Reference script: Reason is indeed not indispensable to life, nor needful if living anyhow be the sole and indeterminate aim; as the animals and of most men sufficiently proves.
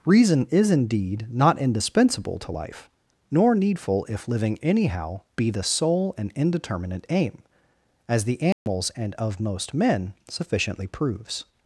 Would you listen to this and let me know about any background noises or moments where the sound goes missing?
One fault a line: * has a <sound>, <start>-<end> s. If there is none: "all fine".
* has a dropout, 8.5-8.7 s